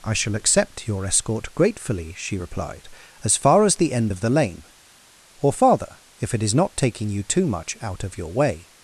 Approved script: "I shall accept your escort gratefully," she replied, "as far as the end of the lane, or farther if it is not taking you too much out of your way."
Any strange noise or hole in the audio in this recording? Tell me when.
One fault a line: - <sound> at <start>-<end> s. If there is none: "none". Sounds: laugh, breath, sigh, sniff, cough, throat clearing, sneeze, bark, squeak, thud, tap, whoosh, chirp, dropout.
none